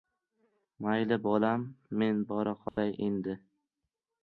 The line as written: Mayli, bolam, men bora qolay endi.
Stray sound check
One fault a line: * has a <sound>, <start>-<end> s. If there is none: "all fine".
* has a dropout, 2.7-2.8 s